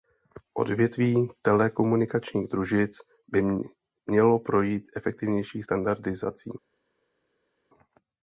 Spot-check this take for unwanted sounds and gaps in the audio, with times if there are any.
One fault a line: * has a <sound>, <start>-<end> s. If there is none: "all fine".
all fine